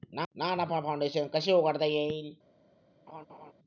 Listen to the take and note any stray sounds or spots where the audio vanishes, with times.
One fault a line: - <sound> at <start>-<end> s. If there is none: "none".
- laugh at 3.1-3.5 s